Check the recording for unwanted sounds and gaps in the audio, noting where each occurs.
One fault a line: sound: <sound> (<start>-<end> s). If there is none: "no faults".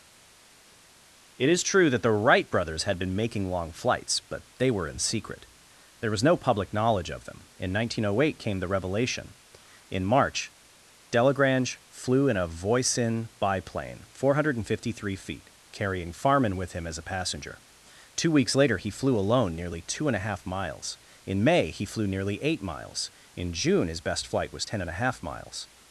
no faults